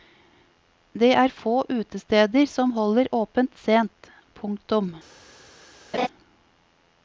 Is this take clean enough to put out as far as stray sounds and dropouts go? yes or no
no